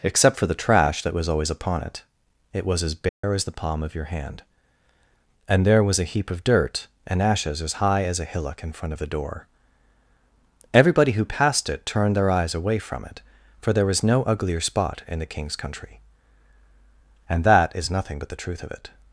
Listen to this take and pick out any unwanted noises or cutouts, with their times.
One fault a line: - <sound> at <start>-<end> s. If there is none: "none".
- dropout at 3.1-3.2 s